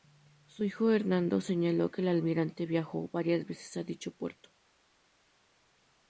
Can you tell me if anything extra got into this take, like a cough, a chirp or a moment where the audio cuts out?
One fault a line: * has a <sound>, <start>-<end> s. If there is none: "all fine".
all fine